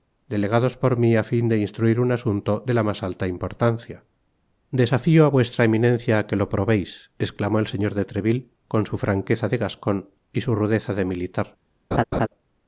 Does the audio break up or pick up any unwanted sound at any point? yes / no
yes